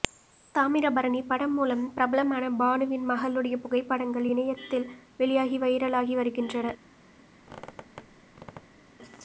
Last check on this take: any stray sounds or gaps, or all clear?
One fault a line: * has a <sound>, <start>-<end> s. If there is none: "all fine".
* has a squeak, 7.4-8.9 s